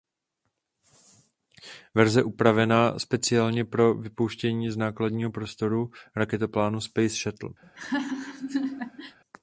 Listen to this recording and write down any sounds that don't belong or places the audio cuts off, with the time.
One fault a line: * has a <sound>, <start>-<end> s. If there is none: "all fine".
* has a laugh, 7.6-9.2 s